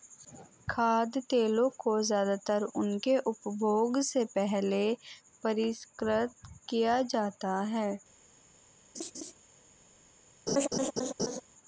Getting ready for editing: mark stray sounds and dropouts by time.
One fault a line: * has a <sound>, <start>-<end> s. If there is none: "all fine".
* has a laugh, 8.9-9.3 s
* has a laugh, 10.5-11.4 s